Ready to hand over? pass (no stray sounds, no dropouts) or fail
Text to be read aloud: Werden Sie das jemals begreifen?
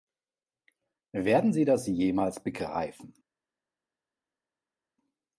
pass